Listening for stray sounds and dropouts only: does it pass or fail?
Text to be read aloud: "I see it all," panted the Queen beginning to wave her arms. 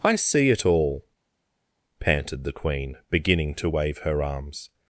pass